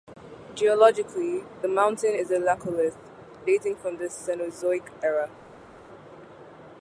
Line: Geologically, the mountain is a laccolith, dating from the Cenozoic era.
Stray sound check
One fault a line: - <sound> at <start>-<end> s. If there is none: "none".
none